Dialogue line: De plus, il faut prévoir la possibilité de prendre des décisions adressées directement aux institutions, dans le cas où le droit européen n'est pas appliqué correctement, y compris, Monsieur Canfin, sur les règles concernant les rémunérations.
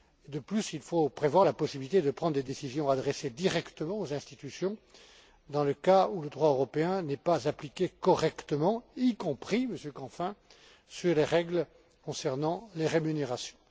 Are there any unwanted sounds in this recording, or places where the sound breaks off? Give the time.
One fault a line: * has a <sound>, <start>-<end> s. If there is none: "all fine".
all fine